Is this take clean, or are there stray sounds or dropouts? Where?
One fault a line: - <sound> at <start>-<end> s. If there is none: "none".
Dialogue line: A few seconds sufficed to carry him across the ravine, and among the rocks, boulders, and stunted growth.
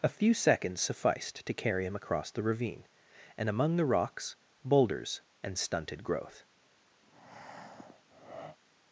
- breath at 7.0-8.6 s